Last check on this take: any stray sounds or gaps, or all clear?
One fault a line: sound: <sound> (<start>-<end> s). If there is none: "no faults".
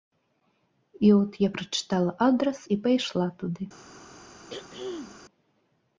sound: throat clearing (4.5-5.2 s)